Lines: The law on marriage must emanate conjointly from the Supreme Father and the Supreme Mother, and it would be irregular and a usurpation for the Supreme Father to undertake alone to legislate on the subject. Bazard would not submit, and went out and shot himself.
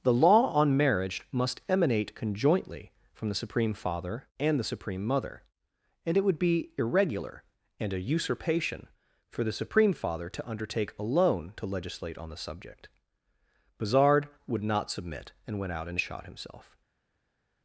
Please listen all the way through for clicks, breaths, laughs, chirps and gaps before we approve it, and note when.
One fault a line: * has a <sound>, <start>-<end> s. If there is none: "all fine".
all fine